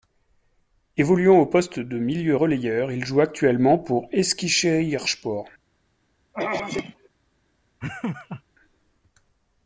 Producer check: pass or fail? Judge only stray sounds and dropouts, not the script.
fail